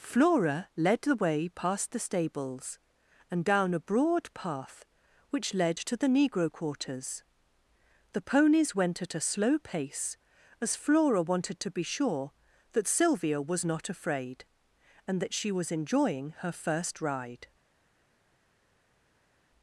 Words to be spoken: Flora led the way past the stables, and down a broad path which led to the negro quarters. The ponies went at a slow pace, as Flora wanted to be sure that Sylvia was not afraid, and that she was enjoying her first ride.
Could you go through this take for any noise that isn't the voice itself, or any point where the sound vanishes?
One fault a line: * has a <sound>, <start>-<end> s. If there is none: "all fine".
all fine